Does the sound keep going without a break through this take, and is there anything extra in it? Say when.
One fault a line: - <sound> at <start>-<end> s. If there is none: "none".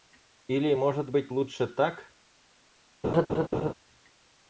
- laugh at 3.0-3.7 s